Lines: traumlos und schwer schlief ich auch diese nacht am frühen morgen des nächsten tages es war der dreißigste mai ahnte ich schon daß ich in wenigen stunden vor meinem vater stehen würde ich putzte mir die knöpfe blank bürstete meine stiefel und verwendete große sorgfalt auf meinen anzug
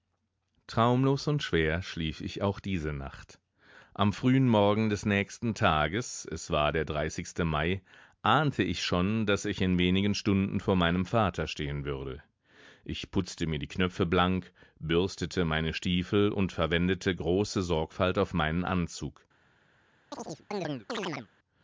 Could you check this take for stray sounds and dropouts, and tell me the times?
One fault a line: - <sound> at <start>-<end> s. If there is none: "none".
- chirp at 20.1-21.3 s